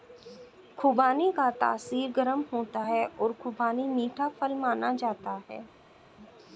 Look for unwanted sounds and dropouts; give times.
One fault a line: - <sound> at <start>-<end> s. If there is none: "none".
none